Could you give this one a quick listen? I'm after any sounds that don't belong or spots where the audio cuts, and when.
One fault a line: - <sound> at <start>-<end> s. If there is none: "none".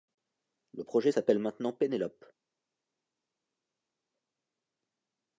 none